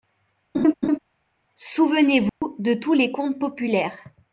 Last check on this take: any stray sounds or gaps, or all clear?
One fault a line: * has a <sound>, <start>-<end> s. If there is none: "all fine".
* has a laugh, 0.5-1.0 s
* has a dropout, 2.3-2.4 s